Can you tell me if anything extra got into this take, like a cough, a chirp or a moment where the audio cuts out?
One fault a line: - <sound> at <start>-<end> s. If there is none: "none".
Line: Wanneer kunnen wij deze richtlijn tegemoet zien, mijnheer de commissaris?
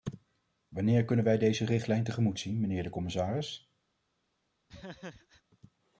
- laugh at 4.7-5.4 s